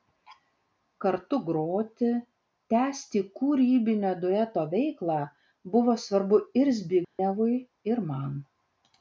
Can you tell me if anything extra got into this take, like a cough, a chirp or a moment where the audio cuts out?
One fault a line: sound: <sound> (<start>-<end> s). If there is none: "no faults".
sound: dropout (7.0-7.2 s)